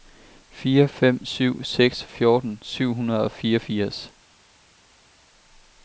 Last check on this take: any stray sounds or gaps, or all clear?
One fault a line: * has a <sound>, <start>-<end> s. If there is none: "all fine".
all fine